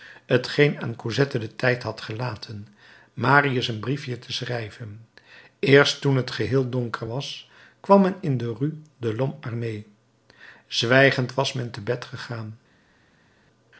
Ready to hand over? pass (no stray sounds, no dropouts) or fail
pass